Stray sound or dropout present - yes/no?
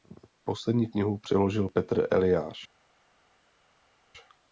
no